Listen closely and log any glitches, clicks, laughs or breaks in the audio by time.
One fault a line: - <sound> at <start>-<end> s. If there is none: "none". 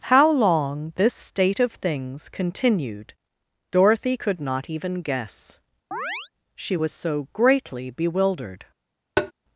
- chirp at 5.9-6.3 s
- tap at 9.2-9.3 s